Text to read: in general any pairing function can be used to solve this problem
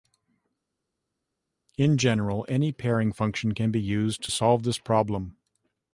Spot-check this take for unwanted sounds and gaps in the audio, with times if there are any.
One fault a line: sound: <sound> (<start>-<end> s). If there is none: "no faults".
no faults